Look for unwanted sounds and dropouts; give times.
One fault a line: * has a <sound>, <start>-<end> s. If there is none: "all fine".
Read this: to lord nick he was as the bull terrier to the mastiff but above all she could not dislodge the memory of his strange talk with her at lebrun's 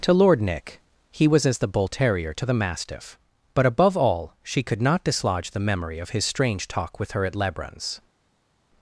all fine